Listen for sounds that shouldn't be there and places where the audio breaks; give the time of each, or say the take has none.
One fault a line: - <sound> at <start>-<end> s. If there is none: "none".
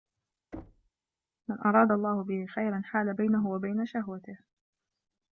- thud at 0.5-0.9 s